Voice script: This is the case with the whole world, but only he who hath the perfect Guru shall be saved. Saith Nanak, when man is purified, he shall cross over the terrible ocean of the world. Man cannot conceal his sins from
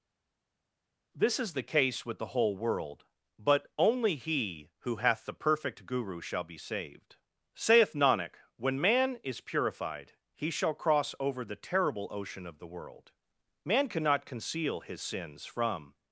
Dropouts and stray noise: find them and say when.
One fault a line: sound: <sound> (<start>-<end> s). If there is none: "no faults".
no faults